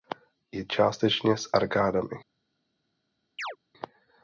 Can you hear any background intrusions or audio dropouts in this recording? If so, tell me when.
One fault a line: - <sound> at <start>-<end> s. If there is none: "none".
- chirp at 3.4-3.6 s